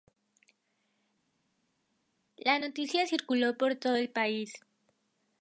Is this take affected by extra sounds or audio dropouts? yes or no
no